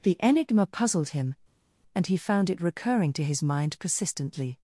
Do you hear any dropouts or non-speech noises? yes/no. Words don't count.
no